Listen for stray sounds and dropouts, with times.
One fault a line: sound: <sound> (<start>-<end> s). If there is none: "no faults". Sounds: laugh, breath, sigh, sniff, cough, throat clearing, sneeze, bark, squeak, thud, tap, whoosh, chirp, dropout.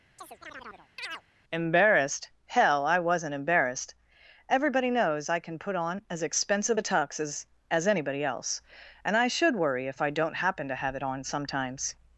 sound: chirp (0.2-1.2 s)